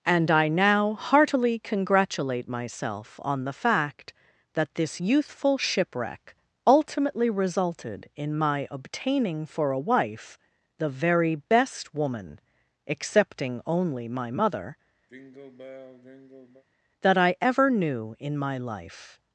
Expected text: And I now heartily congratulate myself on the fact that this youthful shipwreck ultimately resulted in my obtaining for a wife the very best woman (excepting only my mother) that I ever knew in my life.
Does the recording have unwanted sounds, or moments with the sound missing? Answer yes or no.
yes